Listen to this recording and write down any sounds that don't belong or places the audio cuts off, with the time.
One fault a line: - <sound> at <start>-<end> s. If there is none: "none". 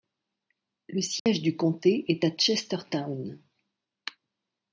- dropout at 1.2-1.3 s